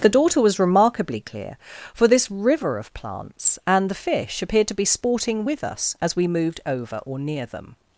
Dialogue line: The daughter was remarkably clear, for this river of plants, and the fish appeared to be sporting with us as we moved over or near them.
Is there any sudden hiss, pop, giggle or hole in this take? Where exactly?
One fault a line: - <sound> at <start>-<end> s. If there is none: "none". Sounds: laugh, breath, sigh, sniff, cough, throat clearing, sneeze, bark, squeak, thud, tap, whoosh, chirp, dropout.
none